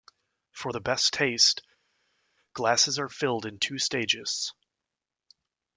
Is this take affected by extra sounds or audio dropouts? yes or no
no